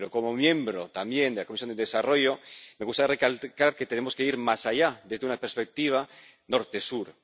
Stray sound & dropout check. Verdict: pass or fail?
pass